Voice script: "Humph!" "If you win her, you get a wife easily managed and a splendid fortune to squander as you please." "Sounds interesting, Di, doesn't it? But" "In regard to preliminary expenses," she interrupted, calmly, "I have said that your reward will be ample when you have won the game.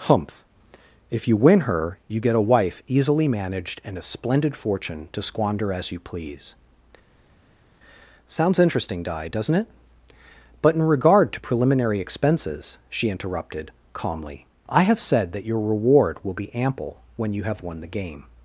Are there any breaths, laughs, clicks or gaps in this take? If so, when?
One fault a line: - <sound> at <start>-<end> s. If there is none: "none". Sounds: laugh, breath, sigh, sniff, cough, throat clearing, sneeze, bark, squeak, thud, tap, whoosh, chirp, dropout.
none